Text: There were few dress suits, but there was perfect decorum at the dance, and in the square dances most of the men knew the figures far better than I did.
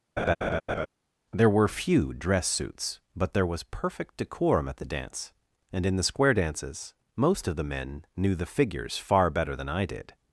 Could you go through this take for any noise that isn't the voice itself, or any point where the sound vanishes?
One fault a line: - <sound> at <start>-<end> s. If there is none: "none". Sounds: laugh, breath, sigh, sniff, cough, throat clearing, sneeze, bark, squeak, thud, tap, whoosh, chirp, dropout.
- laugh at 0.2-0.9 s